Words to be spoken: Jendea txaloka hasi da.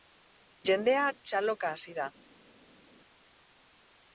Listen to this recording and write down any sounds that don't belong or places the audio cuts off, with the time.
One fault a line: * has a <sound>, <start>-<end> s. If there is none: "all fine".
all fine